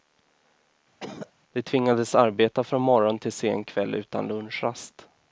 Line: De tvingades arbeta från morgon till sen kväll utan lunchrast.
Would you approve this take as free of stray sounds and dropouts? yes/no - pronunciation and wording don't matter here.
no